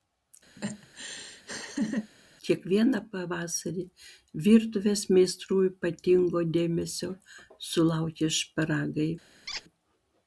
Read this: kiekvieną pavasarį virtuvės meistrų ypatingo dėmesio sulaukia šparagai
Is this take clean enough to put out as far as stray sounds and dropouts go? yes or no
no